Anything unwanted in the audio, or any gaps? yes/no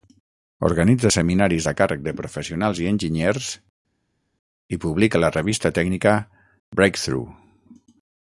no